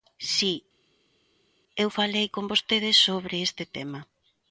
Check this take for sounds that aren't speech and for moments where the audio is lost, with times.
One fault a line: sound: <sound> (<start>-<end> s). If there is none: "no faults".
no faults